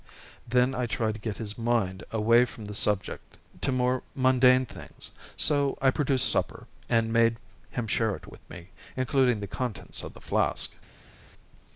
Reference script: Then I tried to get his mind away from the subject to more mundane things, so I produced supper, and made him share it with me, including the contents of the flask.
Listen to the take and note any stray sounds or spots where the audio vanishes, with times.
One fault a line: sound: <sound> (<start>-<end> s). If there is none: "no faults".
no faults